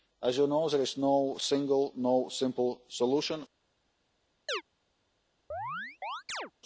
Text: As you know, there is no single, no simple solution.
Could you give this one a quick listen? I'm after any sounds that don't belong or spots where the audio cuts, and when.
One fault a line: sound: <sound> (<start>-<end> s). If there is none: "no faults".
sound: chirp (4.5-4.6 s)
sound: chirp (5.5-6.5 s)